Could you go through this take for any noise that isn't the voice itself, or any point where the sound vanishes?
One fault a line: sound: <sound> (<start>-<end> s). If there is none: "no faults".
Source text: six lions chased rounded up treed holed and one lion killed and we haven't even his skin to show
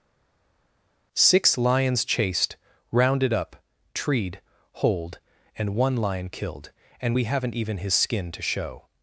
no faults